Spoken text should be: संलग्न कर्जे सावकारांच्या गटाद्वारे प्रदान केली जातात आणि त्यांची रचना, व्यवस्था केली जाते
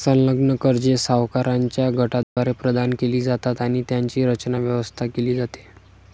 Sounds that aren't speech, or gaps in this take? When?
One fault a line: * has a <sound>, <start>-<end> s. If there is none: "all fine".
* has a dropout, 2.2-2.4 s